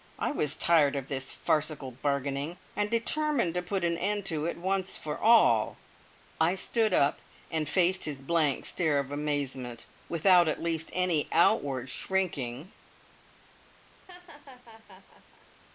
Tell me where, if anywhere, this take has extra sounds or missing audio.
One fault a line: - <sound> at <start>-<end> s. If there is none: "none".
- laugh at 14.1-15.5 s